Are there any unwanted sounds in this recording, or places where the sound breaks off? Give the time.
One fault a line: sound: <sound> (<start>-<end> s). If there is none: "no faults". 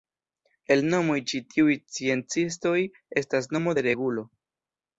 no faults